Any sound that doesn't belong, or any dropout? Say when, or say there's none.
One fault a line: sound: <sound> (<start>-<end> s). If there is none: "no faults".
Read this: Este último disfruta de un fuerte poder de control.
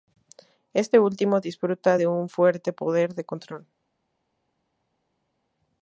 no faults